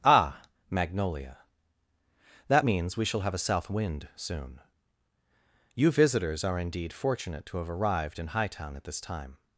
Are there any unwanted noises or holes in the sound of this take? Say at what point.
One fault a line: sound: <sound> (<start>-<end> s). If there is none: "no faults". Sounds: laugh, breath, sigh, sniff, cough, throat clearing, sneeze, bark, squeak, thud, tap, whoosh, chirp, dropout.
no faults